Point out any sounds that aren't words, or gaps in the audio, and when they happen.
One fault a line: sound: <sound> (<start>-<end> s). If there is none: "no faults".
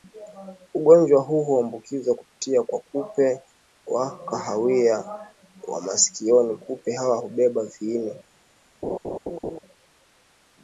sound: laugh (8.8-9.6 s)